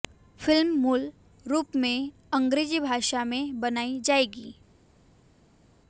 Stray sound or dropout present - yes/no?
no